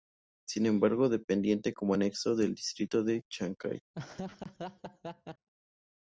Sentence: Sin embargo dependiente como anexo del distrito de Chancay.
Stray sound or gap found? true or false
true